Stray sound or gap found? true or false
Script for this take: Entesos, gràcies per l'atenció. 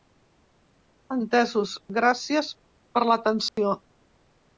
true